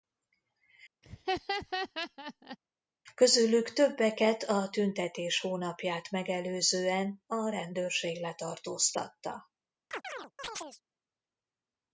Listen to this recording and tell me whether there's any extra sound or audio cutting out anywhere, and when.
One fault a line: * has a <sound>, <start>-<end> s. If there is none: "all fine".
* has a laugh, 1.0-2.6 s
* has a chirp, 9.9-10.8 s